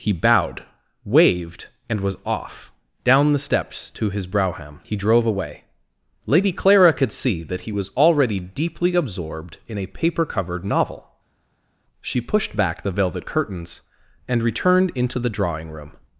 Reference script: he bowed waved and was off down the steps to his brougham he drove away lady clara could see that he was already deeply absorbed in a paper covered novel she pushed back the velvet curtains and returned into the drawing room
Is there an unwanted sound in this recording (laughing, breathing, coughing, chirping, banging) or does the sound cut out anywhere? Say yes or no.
no